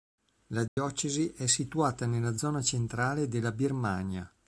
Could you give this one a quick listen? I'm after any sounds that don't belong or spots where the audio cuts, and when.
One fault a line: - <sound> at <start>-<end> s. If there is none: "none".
- dropout at 0.7-0.8 s